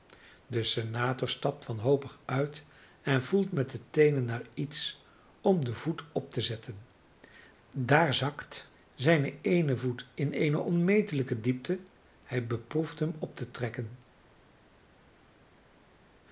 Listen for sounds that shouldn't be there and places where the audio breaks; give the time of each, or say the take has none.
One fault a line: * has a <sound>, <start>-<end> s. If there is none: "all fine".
all fine